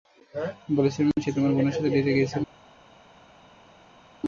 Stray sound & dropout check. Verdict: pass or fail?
pass